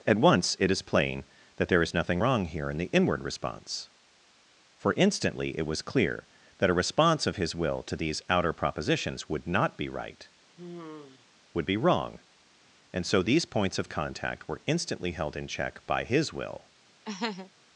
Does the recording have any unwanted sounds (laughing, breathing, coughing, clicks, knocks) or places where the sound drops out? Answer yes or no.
yes